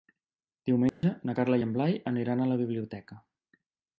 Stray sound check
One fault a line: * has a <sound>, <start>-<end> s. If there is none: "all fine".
* has a dropout, 0.9-1.0 s